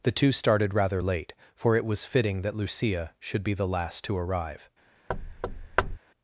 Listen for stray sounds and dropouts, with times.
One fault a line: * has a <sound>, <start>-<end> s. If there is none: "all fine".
* has a thud, 5.1-6.0 s